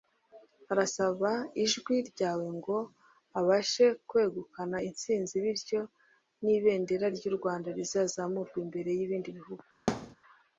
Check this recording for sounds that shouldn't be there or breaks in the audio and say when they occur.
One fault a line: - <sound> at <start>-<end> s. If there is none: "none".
- thud at 9.9-10.2 s